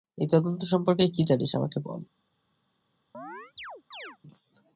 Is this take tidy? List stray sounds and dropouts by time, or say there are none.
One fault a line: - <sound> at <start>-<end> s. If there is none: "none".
- chirp at 3.1-4.2 s